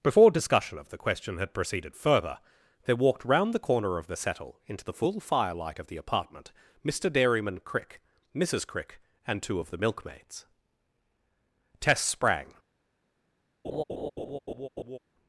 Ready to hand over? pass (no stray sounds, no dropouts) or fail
fail